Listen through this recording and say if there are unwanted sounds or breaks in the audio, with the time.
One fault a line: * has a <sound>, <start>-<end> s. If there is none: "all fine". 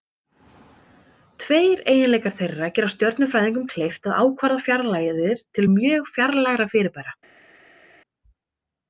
all fine